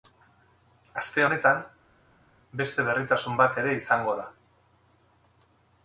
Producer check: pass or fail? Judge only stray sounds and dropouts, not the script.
pass